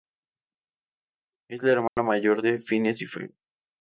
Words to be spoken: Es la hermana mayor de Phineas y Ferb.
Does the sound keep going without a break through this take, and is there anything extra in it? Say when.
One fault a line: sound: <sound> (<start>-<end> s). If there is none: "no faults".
sound: dropout (1.9-2.0 s)